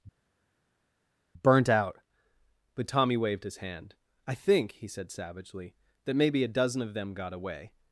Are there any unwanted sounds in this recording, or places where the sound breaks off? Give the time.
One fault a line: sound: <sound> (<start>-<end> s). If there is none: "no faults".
no faults